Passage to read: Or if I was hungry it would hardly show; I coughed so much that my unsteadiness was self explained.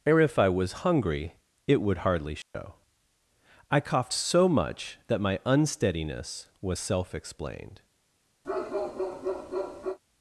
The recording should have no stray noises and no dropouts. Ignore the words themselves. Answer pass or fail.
fail